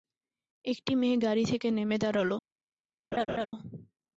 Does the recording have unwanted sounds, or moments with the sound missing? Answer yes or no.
yes